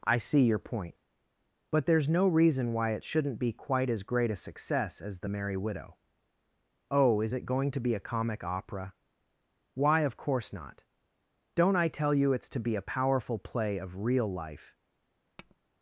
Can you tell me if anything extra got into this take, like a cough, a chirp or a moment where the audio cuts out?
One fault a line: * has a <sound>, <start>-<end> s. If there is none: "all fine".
* has a tap, 15.4-15.6 s